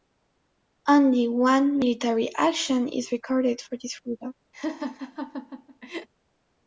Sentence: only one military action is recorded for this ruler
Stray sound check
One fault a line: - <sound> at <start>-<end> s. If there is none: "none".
- laugh at 4.5-6.1 s